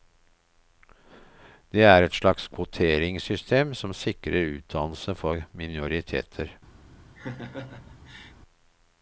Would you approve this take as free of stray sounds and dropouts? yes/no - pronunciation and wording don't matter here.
no